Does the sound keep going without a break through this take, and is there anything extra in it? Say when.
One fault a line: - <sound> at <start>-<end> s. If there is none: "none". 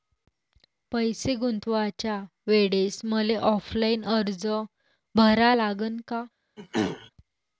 - throat clearing at 6.6-7.1 s